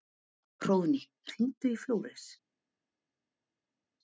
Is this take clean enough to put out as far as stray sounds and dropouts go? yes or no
yes